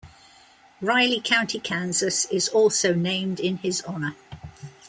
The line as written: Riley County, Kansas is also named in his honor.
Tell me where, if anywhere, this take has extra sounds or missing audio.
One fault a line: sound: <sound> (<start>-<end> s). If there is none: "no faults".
no faults